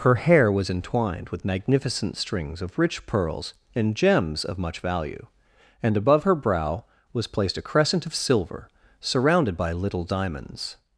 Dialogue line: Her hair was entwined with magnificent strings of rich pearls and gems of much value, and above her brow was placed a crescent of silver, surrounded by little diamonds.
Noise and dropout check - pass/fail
pass